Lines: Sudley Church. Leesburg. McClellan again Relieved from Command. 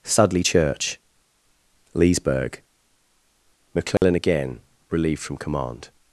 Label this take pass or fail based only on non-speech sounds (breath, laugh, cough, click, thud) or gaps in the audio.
fail